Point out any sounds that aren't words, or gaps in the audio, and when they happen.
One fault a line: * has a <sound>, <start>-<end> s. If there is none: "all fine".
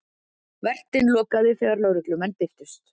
all fine